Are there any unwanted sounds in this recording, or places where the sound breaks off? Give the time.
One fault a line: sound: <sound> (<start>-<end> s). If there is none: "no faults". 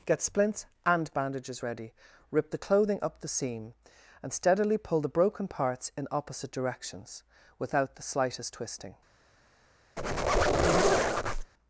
sound: squeak (10.0-11.5 s)